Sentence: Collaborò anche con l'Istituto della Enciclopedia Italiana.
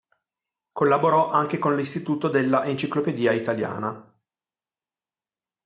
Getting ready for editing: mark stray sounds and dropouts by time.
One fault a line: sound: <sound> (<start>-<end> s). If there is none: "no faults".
no faults